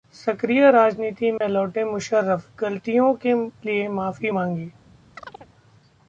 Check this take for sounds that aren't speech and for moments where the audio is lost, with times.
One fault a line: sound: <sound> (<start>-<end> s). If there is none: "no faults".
sound: dropout (1.4-1.4 s)
sound: chirp (5.1-5.5 s)